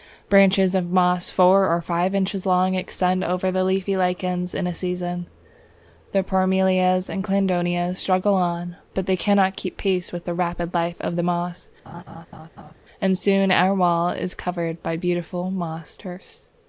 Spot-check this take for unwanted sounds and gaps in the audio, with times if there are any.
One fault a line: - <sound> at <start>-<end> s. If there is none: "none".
- laugh at 11.8-12.7 s